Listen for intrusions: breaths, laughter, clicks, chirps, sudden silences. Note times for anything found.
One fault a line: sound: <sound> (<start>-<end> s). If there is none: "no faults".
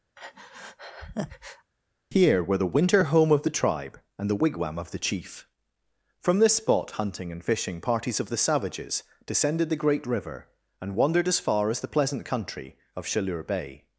sound: breath (0.2-1.7 s)